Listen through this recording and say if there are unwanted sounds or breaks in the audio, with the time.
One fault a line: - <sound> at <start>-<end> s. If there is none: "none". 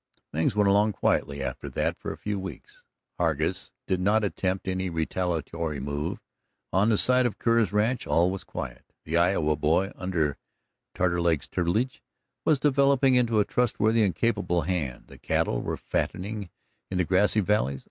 none